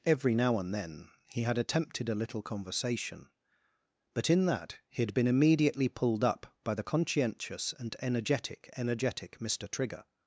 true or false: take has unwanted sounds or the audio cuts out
false